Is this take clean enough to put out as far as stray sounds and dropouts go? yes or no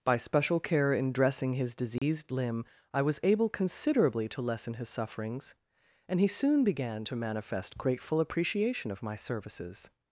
no